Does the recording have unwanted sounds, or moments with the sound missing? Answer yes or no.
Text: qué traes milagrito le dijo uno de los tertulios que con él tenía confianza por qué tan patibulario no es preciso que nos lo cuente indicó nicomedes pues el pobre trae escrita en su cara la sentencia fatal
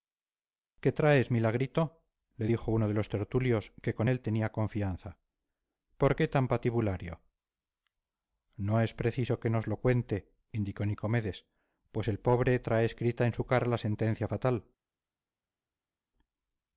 no